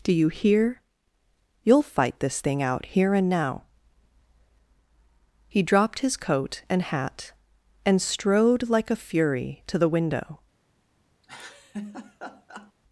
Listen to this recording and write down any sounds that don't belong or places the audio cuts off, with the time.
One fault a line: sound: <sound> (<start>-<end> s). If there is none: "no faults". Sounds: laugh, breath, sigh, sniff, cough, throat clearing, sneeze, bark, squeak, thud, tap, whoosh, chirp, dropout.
sound: laugh (11.2-12.7 s)